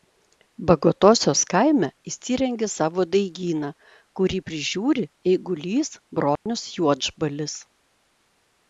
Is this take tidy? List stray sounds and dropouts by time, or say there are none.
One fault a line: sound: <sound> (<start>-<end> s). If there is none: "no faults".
sound: dropout (6.4-6.5 s)